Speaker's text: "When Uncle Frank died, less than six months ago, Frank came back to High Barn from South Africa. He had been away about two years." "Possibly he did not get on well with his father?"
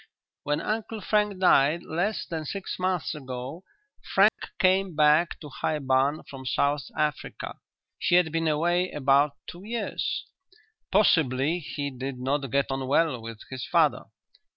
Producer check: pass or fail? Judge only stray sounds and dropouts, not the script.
fail